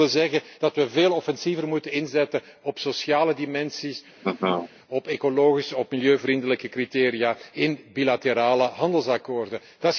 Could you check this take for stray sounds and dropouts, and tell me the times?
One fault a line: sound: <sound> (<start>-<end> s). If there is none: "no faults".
sound: laugh (4.2-4.7 s)